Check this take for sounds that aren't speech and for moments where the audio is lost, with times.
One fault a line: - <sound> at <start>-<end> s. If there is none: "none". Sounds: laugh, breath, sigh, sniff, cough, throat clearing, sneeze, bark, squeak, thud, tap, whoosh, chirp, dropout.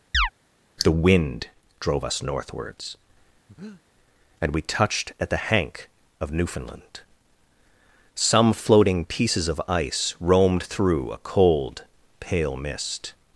- chirp at 0.1-0.3 s
- breath at 3.5-3.8 s